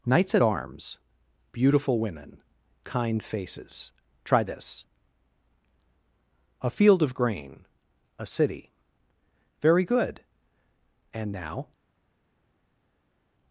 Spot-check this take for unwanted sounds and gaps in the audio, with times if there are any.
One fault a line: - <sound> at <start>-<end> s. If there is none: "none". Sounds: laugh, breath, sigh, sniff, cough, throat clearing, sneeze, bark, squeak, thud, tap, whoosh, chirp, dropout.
none